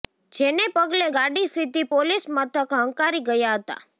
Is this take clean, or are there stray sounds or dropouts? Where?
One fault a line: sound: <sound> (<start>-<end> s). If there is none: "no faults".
no faults